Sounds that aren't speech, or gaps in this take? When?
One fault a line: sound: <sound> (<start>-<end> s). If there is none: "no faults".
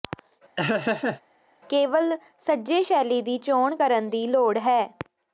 sound: laugh (0.6-1.2 s)